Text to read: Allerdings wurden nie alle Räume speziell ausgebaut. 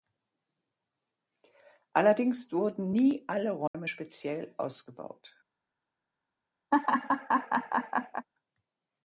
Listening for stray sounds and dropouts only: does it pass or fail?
fail